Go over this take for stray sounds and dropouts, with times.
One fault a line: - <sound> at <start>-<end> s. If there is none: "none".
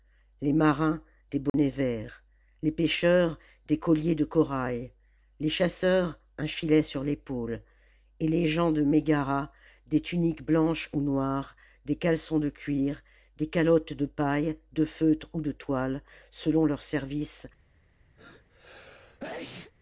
- dropout at 1.5-1.5 s
- sneeze at 18.2-19.7 s